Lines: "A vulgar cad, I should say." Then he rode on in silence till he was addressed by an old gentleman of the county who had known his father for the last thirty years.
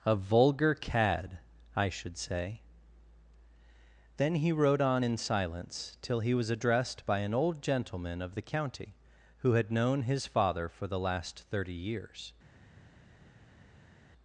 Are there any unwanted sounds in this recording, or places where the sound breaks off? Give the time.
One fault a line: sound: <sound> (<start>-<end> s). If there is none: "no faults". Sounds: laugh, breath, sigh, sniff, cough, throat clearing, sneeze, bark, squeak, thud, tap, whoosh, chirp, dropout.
no faults